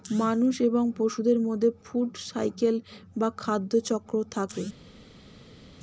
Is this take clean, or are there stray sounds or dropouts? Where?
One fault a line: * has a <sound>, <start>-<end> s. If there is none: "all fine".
all fine